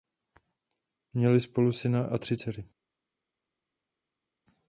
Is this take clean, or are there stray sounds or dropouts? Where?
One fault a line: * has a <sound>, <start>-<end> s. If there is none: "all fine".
all fine